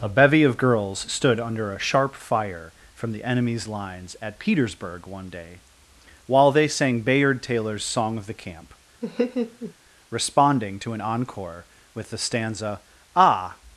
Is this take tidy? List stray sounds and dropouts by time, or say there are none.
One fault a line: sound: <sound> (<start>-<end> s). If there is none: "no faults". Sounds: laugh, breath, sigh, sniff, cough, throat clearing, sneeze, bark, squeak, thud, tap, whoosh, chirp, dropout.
sound: laugh (9.0-9.7 s)